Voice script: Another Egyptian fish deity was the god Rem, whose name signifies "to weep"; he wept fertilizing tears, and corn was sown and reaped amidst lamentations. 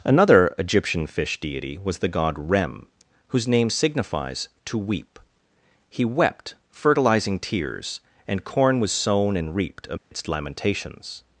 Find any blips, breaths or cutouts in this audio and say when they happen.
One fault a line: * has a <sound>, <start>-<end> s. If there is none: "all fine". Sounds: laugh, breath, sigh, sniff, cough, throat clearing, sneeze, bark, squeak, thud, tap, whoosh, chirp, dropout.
* has a dropout, 10.0-10.1 s